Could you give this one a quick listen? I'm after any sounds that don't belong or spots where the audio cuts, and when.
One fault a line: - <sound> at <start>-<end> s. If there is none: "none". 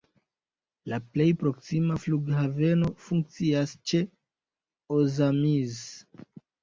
none